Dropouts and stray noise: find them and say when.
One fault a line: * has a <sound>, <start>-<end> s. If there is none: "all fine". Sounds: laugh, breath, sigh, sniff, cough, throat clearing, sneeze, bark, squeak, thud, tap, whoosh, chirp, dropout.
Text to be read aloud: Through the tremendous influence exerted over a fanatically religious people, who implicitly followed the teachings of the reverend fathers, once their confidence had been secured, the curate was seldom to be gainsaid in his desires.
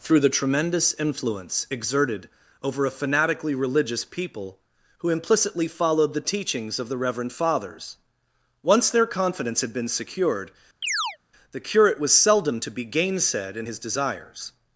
* has a chirp, 10.8-11.2 s